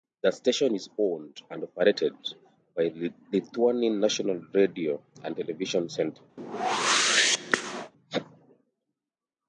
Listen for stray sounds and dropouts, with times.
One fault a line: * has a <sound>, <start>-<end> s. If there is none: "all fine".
* has a whoosh, 6.4-7.9 s